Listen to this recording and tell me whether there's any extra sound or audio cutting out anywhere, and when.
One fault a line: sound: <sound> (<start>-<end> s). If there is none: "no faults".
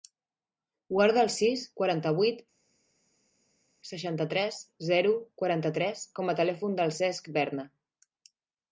no faults